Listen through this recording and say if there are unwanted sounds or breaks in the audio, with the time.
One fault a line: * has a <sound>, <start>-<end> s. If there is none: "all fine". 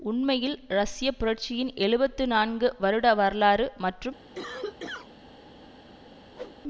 * has a cough, 4.4-5.1 s
* has a whoosh, 6.3-6.6 s